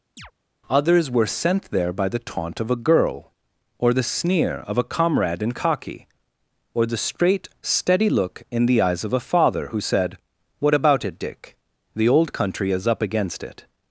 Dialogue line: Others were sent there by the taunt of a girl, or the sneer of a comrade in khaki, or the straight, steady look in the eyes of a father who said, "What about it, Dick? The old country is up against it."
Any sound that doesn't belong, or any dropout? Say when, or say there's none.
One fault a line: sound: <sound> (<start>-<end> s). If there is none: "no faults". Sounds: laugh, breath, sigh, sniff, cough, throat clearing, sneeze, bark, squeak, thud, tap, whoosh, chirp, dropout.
sound: chirp (0.2-0.3 s)